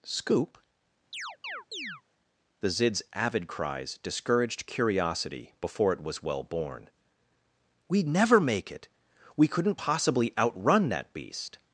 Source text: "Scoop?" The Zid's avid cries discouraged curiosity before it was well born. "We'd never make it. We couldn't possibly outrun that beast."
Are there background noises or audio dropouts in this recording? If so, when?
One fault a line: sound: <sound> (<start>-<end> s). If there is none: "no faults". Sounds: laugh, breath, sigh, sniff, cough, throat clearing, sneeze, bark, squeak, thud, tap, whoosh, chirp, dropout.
sound: chirp (1.1-2.0 s)